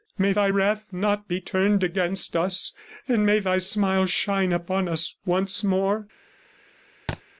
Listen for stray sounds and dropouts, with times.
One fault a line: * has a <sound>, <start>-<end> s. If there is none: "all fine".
* has a thud, 7.1-7.2 s